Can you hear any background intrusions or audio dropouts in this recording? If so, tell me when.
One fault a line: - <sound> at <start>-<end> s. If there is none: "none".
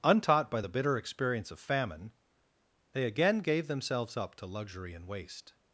none